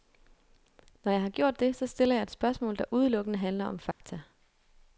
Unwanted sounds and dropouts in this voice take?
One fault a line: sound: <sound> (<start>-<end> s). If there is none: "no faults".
sound: dropout (3.9-4.0 s)